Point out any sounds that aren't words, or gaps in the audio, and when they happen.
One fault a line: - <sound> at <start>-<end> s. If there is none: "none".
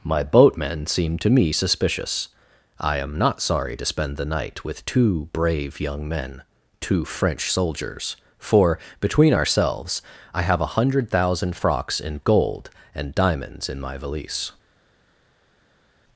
none